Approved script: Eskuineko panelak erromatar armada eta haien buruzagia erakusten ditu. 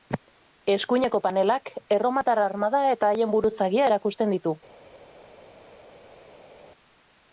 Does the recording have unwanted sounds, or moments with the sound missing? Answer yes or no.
no